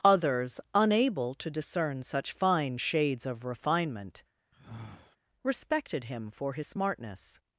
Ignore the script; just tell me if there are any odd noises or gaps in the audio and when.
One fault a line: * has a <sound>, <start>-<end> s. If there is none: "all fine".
* has a sigh, 4.5-5.2 s